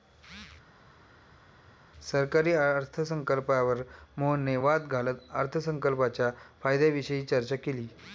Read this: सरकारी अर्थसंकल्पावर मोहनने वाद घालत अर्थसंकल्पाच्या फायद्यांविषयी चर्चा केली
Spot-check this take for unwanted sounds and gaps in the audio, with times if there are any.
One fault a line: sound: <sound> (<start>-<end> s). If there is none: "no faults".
no faults